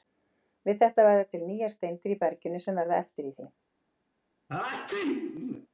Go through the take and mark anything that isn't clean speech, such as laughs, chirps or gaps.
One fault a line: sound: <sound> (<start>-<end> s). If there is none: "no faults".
sound: sneeze (4.5-5.7 s)